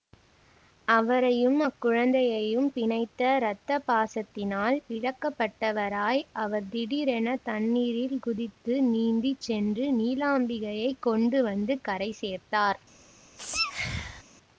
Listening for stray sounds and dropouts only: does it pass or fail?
fail